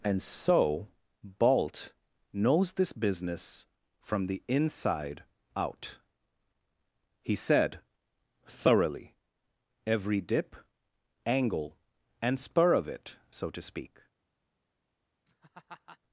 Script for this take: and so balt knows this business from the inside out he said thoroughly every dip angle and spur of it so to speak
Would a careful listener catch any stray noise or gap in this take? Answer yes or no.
yes